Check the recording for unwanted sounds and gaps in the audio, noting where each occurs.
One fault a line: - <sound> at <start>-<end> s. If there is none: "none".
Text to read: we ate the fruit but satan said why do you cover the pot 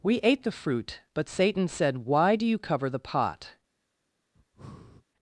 - breath at 4.4-5.1 s